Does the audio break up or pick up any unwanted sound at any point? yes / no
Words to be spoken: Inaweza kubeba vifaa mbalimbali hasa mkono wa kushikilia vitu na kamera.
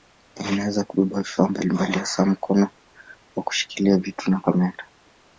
no